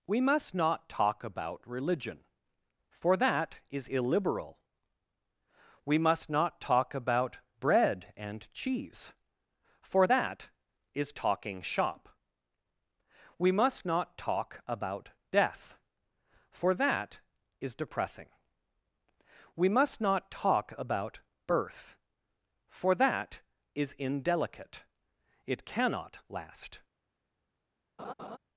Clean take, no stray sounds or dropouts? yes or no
no